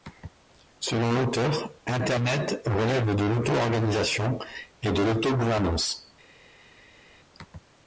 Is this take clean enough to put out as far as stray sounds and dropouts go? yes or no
yes